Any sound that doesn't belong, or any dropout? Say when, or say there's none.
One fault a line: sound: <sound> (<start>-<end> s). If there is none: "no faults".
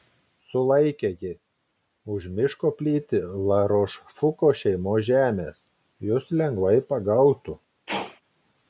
sound: sneeze (7.9-8.2 s)